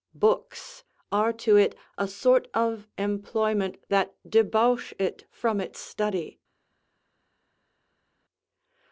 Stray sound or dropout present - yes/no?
no